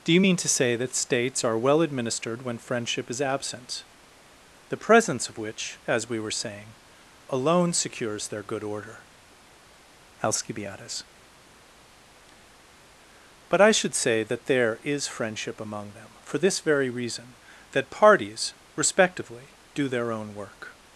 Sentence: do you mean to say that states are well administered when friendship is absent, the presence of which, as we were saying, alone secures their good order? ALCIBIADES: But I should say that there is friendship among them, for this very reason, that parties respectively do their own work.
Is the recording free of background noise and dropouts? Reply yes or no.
yes